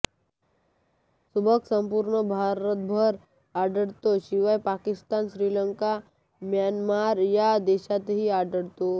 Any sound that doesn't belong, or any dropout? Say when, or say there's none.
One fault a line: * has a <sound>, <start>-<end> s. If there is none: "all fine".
all fine